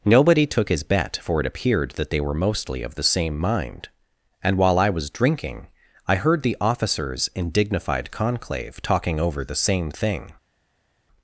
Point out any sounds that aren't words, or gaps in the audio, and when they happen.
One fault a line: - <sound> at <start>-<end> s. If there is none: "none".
none